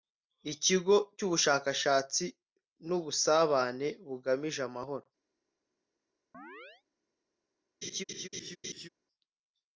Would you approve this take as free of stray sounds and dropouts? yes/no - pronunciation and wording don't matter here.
no